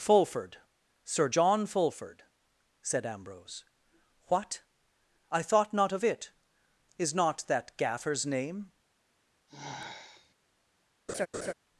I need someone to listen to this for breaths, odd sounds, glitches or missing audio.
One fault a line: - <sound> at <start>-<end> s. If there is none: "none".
- sigh at 9.5-10.4 s
- laugh at 11.1-11.5 s